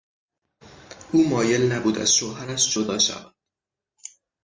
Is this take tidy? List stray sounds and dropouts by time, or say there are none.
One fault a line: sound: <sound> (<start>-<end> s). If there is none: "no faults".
no faults